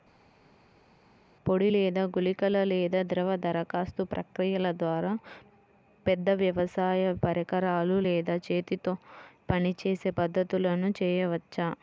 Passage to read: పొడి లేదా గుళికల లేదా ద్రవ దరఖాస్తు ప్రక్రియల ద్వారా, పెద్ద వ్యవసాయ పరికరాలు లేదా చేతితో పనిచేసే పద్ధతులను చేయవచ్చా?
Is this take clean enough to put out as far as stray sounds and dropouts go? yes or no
yes